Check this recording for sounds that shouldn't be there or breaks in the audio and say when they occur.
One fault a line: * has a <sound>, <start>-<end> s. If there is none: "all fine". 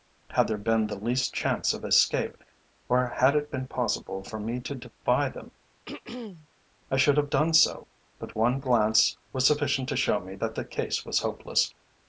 * has a throat clearing, 5.9-6.5 s